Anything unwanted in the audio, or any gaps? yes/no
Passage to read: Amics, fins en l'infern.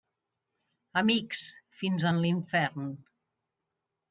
no